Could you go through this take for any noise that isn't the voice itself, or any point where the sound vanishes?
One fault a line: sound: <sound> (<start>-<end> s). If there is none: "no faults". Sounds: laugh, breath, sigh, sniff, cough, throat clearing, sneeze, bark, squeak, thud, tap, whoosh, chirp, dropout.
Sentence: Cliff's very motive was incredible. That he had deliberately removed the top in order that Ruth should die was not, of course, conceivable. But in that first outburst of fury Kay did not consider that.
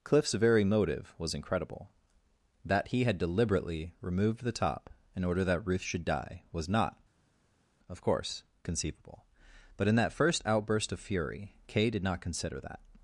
no faults